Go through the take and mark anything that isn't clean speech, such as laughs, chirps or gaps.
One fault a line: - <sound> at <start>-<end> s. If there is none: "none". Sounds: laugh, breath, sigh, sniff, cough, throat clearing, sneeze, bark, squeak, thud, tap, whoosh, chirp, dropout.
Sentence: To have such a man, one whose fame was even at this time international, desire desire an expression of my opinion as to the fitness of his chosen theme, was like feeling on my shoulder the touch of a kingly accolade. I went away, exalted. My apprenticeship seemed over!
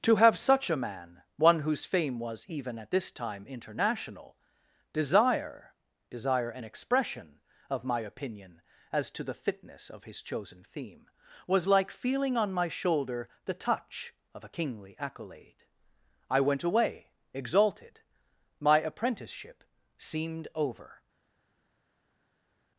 none